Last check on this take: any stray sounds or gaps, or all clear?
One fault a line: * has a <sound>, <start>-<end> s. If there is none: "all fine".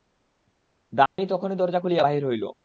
* has a dropout, 1.1-1.2 s